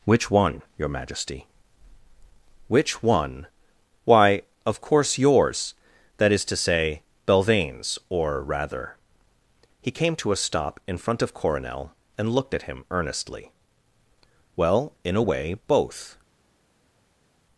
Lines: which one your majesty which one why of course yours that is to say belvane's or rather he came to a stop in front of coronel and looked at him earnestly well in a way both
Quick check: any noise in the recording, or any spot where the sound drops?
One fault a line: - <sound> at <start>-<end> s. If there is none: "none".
none